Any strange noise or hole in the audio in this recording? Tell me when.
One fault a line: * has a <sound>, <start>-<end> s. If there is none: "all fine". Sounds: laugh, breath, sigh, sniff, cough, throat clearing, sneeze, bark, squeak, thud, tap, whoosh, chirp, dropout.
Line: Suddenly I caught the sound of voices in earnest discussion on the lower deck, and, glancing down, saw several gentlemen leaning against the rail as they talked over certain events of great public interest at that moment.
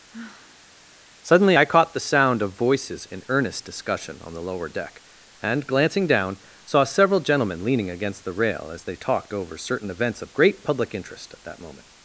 * has a sigh, 0.1-0.7 s